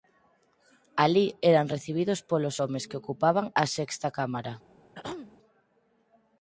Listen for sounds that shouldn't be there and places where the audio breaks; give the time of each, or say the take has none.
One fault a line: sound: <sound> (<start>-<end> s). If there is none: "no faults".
sound: throat clearing (4.9-5.4 s)